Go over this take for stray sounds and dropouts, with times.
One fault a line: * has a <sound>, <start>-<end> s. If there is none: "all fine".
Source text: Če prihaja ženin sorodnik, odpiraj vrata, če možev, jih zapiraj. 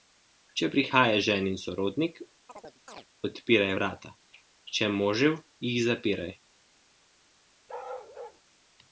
* has a chirp, 2.5-3.1 s
* has a bark, 7.7-8.4 s